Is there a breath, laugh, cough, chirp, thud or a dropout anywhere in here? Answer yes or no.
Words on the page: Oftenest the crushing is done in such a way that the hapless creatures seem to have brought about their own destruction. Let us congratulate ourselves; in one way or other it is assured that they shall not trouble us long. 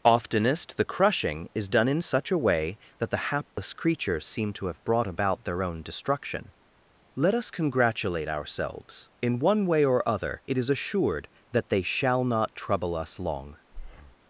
yes